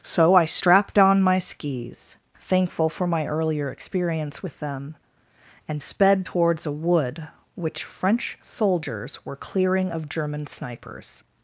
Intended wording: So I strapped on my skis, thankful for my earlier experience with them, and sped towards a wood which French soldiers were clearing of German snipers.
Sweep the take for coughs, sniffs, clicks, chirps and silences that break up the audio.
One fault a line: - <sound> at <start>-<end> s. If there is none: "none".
none